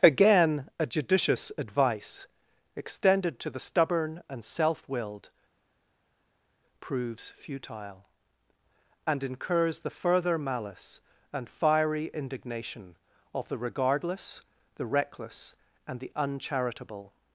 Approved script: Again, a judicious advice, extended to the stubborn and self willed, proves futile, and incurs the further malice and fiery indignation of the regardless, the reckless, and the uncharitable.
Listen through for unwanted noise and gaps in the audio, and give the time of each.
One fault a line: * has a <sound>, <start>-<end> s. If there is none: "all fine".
all fine